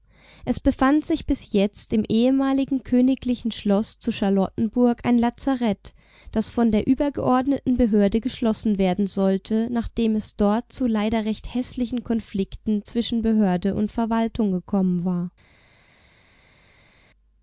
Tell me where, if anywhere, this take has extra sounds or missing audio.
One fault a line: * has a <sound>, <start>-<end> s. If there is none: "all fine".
all fine